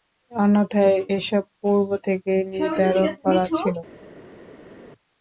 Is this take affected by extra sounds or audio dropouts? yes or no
no